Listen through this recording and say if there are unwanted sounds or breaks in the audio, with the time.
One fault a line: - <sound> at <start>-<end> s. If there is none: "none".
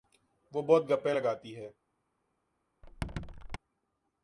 - squeak at 2.8-3.6 s